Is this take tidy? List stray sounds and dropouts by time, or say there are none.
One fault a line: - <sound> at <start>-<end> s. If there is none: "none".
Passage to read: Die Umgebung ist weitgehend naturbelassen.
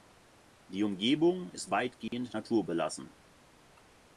- dropout at 2.1-2.1 s